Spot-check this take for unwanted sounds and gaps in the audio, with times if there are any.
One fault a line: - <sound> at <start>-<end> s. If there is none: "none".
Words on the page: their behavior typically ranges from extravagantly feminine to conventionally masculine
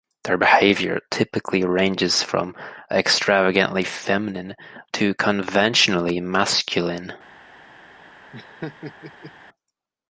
- laugh at 8.3-9.3 s